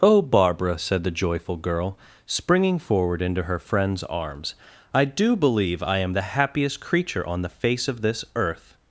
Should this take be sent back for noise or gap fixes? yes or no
no